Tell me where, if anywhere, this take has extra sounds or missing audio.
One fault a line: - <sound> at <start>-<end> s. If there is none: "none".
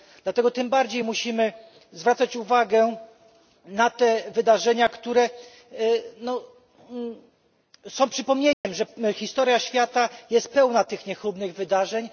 - dropout at 8.5-8.6 s